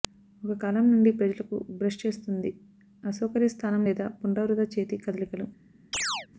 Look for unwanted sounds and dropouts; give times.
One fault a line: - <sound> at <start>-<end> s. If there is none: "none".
- chirp at 5.9-6.3 s